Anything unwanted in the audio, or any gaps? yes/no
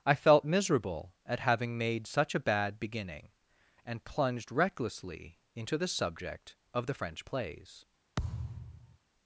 yes